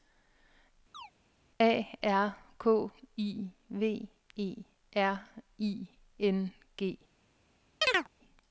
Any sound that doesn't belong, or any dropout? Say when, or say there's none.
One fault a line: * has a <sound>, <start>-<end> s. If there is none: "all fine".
* has a chirp, 0.9-1.1 s
* has a chirp, 7.8-8.1 s